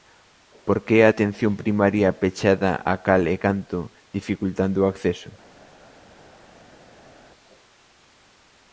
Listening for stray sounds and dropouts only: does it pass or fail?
pass